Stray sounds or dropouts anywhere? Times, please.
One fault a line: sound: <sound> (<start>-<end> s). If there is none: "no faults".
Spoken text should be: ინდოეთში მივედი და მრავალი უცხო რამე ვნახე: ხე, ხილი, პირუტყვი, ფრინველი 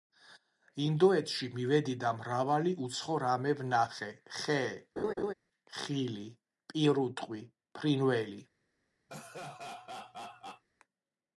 sound: laugh (5.0-5.3 s)
sound: laugh (9.1-10.6 s)